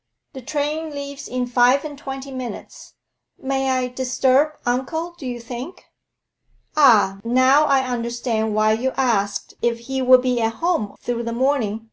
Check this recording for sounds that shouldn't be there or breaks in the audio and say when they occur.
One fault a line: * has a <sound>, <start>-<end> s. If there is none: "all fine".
all fine